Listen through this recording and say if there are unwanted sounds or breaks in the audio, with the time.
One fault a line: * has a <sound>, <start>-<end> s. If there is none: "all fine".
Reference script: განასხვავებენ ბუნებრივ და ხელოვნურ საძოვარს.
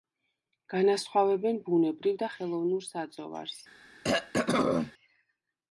* has a throat clearing, 4.0-4.9 s